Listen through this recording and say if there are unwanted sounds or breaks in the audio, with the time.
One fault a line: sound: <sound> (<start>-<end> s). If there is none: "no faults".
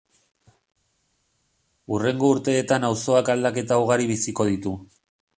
no faults